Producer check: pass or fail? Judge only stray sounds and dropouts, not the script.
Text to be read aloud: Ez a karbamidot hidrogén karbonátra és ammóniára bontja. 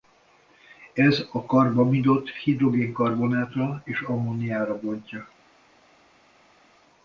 pass